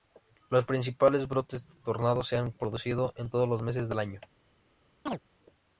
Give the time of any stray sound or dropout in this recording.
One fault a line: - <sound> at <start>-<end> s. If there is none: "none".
- chirp at 5.1-5.2 s